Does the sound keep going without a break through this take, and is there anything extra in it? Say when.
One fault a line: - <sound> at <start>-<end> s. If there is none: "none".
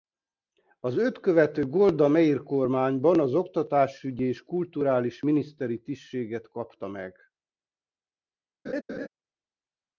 - laugh at 8.7-9.1 s